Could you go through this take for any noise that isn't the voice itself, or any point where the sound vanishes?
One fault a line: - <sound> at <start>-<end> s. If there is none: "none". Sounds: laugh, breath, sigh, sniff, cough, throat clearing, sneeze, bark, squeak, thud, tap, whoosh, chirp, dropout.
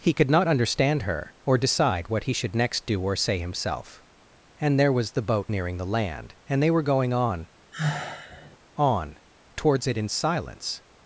- sigh at 7.7-8.6 s